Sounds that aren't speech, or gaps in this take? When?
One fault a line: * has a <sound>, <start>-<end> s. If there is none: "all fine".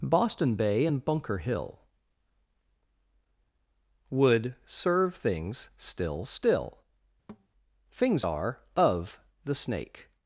* has a thud, 7.3-7.5 s